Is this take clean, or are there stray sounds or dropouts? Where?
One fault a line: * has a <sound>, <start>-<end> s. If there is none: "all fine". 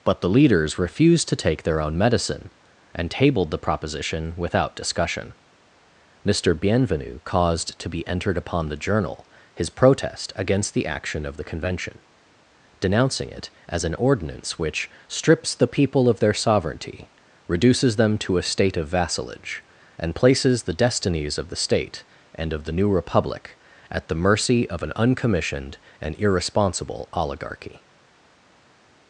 all fine